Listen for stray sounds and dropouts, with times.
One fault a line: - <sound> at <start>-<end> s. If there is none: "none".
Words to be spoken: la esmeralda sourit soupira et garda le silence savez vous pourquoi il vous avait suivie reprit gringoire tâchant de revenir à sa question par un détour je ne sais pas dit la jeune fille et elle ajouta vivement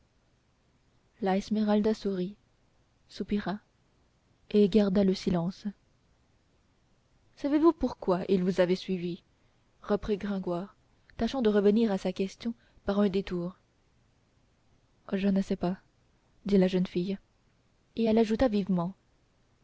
none